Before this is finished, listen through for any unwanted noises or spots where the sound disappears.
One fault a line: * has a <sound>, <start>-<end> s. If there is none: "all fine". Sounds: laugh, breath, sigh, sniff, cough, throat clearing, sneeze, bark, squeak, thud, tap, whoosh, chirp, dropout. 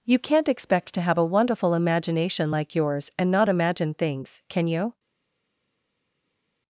all fine